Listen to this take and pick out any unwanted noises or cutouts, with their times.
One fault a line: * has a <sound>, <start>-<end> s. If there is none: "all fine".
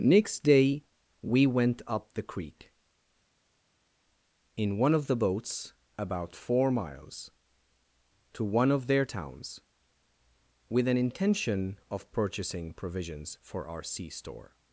all fine